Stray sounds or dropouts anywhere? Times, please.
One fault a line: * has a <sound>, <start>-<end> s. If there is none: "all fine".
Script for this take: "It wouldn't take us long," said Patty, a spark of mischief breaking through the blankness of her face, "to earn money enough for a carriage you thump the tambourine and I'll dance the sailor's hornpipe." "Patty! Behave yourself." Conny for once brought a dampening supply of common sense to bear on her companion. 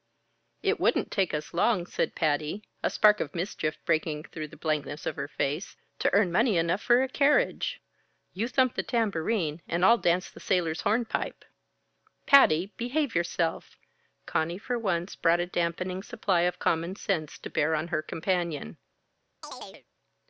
* has a chirp, 19.4-19.9 s